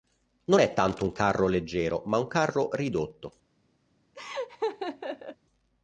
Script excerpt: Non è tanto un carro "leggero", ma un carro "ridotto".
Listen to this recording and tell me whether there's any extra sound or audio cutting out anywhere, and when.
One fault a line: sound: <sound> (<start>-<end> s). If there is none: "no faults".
sound: laugh (4.1-5.4 s)